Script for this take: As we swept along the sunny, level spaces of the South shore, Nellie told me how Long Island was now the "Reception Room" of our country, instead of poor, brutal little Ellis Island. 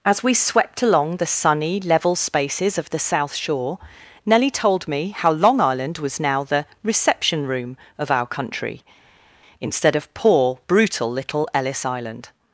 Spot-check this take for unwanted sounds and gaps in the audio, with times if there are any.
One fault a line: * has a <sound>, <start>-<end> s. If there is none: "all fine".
all fine